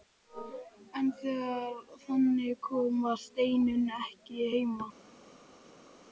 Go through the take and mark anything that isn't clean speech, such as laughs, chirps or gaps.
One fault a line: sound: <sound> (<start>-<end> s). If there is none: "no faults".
no faults